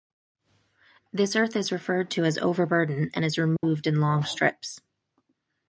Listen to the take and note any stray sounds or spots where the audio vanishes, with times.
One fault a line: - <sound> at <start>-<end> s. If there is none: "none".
- dropout at 3.6-3.6 s